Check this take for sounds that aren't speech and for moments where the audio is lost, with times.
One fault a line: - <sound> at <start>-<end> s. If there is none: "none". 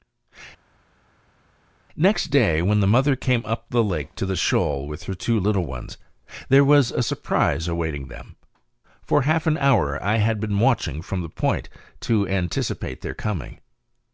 none